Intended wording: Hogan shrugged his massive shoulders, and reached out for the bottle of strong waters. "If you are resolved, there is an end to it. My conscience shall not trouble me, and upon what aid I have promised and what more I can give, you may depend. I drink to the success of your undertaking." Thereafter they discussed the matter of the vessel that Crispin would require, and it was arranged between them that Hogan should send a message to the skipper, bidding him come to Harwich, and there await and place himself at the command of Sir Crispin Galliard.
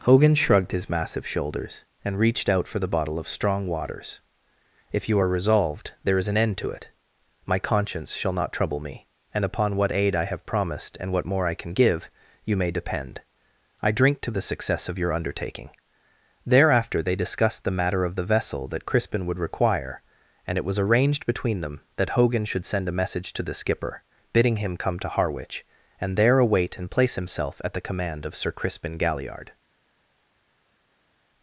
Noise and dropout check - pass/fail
pass